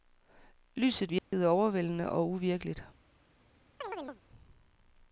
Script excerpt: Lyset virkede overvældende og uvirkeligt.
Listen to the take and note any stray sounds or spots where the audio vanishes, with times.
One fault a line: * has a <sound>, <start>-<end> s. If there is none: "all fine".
* has a dropout, 1.2-1.3 s
* has a chirp, 3.8-4.2 s